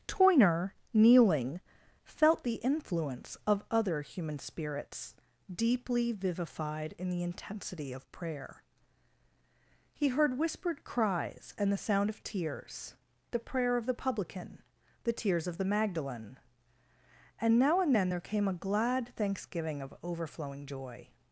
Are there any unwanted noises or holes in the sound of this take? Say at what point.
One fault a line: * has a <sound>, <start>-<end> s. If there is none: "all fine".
all fine